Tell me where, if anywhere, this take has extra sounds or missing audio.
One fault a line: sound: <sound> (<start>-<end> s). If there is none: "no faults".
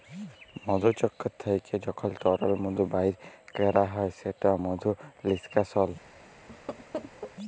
sound: laugh (6.5-7.3 s)